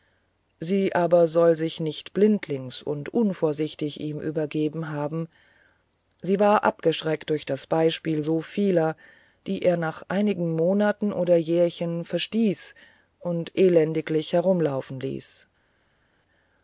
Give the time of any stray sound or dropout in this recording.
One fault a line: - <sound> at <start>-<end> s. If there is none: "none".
none